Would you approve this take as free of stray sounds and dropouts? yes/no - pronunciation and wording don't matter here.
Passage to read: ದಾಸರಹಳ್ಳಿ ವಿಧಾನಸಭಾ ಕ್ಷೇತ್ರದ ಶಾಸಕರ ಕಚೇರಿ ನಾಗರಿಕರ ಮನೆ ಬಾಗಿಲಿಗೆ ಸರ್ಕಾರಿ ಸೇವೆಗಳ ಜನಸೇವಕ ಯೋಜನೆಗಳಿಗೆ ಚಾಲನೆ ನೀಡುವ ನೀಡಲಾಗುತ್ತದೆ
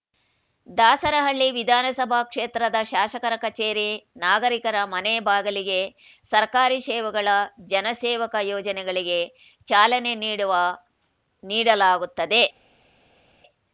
yes